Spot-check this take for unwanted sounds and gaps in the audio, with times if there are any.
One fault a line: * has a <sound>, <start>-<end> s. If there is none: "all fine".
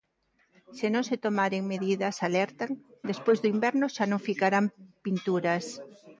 all fine